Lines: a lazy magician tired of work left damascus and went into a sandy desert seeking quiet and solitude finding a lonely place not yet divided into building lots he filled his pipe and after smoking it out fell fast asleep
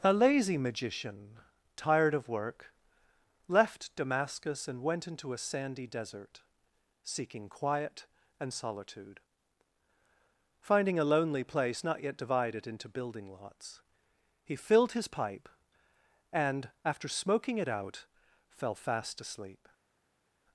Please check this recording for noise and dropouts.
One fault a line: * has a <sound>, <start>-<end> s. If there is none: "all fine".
all fine